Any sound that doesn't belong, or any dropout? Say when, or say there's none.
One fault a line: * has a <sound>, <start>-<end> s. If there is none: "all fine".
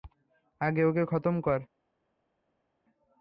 all fine